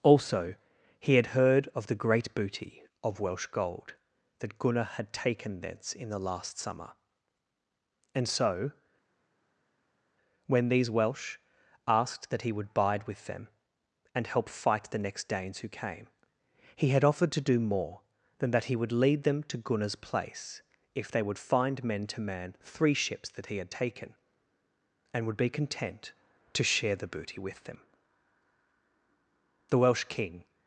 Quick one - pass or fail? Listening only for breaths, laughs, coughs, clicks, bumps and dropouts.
pass